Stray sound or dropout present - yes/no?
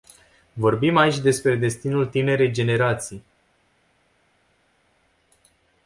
no